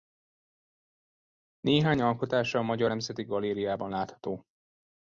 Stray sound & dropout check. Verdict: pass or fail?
pass